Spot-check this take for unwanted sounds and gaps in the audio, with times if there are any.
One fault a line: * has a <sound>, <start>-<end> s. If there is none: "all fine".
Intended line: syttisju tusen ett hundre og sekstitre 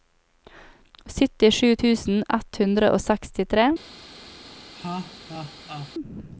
* has a laugh, 4.7-5.9 s